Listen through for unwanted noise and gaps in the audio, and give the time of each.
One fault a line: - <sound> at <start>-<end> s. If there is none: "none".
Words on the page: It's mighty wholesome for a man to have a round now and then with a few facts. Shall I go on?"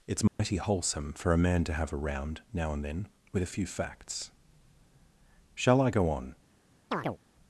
- dropout at 0.3-0.4 s
- chirp at 6.9-7.2 s